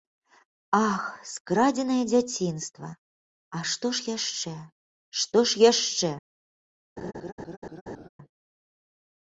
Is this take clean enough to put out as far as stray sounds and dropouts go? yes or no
no